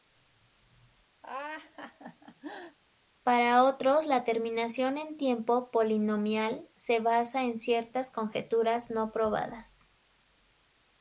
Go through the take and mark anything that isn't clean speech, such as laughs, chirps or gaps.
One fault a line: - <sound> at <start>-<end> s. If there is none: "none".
- laugh at 1.2-2.8 s